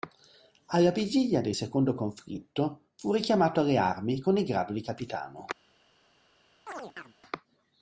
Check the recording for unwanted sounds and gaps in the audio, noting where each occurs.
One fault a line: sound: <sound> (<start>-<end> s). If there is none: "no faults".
sound: chirp (6.7-7.1 s)